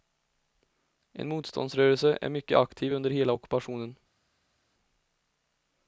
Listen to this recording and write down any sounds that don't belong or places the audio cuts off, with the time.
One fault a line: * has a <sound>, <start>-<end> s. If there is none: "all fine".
all fine